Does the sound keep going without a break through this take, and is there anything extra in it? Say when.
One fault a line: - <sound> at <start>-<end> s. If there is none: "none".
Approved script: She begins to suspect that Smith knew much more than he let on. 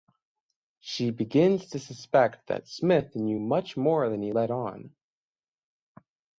none